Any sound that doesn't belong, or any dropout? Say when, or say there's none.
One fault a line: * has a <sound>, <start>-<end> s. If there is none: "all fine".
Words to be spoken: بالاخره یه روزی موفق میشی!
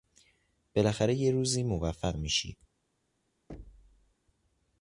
* has a thud, 3.5-4.1 s